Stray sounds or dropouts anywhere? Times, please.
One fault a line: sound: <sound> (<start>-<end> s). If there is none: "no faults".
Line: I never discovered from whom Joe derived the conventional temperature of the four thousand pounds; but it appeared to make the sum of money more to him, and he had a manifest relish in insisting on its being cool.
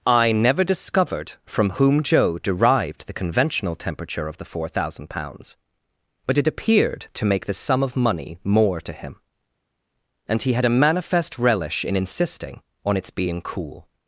no faults